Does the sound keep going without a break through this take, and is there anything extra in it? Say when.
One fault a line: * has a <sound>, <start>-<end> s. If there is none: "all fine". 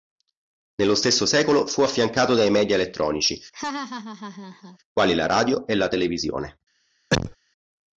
* has a laugh, 3.5-4.8 s
* has a cough, 7.1-7.4 s